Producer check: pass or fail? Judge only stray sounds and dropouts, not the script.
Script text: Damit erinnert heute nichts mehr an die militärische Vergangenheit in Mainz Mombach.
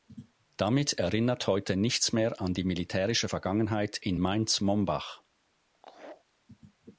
fail